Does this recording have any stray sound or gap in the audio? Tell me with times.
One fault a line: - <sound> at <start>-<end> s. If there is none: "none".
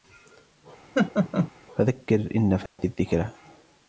- laugh at 0.9-1.5 s
- dropout at 2.7-2.8 s